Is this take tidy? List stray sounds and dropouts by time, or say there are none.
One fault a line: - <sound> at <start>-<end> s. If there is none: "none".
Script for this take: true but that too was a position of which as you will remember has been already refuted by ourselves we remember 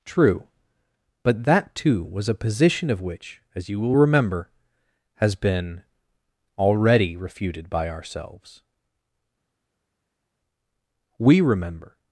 none